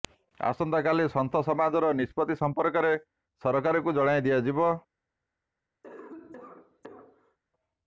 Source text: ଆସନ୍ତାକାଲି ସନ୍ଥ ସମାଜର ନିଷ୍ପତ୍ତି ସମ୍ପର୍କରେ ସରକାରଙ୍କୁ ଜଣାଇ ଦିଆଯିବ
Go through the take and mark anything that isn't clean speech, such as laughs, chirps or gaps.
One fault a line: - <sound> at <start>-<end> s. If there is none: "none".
- cough at 5.8-7.4 s